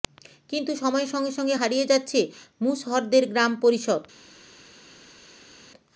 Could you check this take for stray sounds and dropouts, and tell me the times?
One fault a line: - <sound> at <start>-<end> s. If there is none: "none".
none